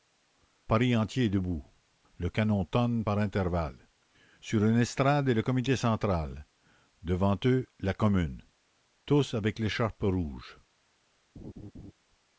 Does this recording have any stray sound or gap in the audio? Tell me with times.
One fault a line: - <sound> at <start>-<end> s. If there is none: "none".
- laugh at 11.4-11.9 s